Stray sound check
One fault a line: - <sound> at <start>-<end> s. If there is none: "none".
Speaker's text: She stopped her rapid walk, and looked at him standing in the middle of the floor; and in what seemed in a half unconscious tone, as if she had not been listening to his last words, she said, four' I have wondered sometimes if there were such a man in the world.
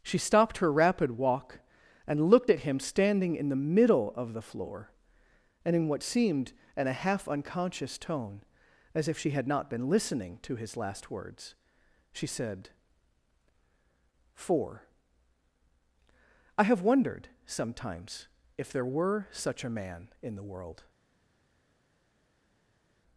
none